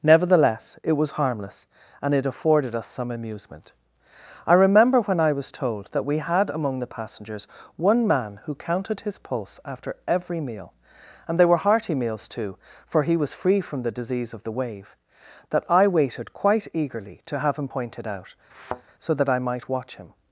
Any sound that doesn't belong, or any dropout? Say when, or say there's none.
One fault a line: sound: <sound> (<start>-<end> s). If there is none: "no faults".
sound: thud (18.5-18.8 s)